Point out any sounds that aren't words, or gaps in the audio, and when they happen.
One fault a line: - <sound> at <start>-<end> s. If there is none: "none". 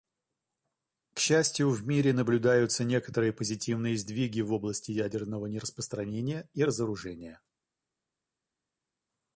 none